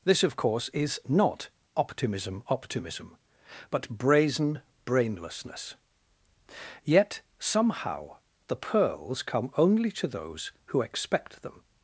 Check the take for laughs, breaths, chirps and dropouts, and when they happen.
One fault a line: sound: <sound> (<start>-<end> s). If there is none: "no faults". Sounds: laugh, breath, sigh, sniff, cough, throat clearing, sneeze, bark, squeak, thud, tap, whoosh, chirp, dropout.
no faults